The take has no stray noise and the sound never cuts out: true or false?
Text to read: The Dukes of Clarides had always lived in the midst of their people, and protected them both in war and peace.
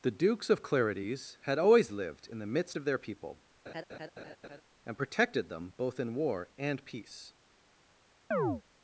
false